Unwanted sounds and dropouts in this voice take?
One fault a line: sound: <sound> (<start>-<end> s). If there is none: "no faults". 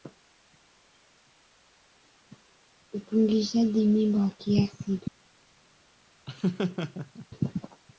sound: laugh (6.3-7.3 s)